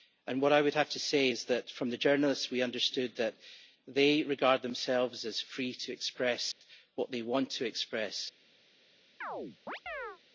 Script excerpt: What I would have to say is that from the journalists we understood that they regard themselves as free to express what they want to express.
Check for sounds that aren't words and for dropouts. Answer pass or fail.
fail